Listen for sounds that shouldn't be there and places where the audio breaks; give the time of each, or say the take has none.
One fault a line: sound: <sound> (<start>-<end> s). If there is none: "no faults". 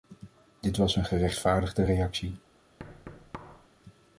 sound: thud (2.8-3.7 s)